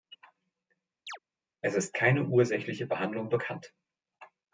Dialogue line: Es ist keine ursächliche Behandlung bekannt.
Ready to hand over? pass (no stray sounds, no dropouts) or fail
fail